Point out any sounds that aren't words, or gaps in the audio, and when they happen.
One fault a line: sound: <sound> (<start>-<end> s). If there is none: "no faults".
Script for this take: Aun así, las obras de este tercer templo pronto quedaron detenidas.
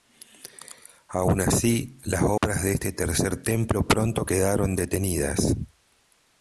sound: dropout (2.4-2.4 s)